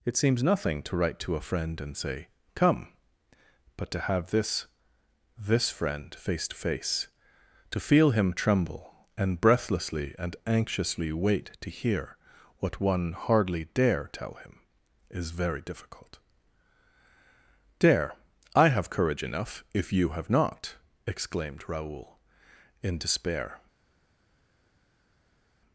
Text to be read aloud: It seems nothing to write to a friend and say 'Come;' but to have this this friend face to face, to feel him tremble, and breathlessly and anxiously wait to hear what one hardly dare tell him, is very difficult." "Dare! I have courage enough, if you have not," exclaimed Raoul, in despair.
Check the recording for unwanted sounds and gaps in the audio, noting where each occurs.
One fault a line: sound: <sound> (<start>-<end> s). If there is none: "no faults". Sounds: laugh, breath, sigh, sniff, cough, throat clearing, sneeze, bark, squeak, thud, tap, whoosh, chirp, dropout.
no faults